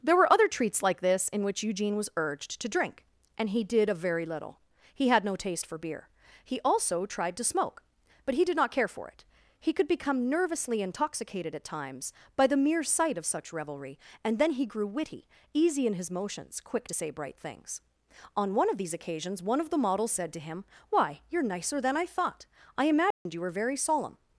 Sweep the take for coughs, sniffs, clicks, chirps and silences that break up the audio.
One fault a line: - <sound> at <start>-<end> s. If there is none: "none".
- dropout at 23.1-23.3 s